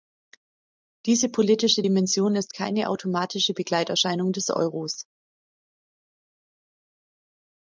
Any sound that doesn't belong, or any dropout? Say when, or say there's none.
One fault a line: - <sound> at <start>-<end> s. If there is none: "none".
none